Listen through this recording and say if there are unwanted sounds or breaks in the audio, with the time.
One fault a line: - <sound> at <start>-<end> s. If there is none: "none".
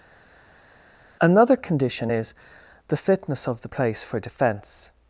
none